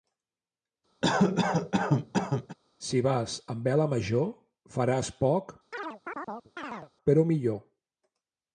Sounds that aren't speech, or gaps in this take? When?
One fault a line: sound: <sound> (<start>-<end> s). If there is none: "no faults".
sound: cough (1.0-2.6 s)
sound: chirp (5.7-6.9 s)